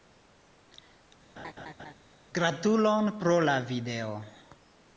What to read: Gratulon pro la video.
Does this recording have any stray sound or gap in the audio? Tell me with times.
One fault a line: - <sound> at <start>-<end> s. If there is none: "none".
- laugh at 1.4-1.9 s